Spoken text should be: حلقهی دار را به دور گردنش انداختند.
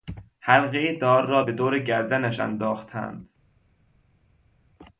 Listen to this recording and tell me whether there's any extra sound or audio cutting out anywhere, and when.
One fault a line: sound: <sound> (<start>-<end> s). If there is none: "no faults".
no faults